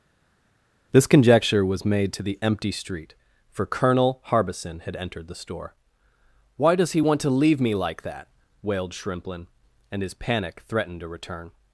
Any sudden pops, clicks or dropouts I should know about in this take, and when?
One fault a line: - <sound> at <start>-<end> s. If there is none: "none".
none